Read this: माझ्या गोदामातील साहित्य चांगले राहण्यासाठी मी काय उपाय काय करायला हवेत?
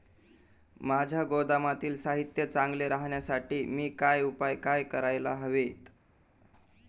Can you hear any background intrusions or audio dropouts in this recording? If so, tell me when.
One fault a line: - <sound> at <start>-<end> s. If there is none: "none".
none